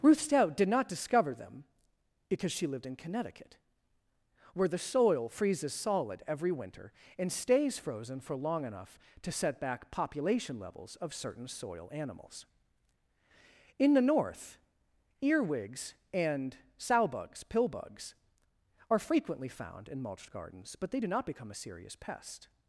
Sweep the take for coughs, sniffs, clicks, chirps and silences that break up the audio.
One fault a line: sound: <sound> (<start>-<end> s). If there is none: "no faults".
no faults